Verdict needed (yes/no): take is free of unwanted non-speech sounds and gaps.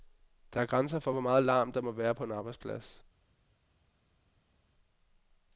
yes